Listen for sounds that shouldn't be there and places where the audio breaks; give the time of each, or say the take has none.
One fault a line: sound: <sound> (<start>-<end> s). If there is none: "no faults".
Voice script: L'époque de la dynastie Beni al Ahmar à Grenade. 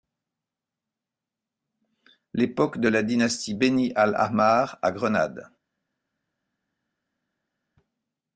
no faults